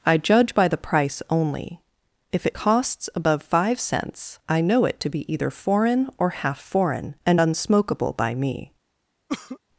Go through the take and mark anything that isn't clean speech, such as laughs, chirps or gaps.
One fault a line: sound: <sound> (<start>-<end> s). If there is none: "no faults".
sound: cough (9.3-9.6 s)